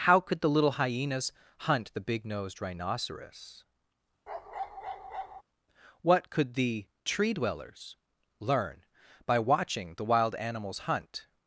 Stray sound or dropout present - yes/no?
yes